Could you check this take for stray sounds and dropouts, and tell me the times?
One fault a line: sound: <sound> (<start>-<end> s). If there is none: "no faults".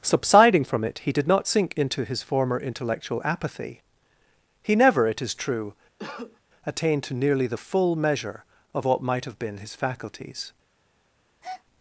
sound: cough (6.0-6.4 s)
sound: breath (11.4-11.6 s)